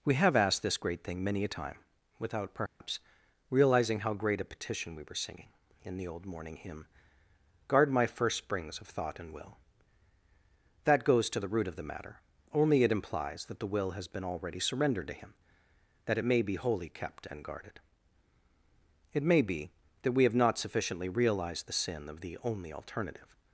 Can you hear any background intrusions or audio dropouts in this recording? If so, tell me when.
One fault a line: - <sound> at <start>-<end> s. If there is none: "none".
- dropout at 2.7-2.8 s